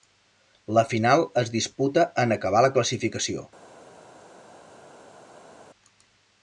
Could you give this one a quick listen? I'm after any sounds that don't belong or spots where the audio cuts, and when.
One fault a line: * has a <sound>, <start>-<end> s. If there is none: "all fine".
all fine